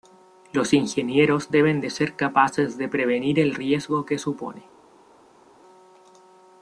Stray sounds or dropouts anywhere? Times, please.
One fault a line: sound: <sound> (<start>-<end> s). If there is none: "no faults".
no faults